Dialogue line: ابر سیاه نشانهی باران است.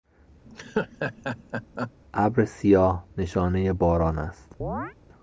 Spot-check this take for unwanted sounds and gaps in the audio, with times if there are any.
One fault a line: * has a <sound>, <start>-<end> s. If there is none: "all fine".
* has a laugh, 0.4-1.9 s
* has a chirp, 4.6-4.9 s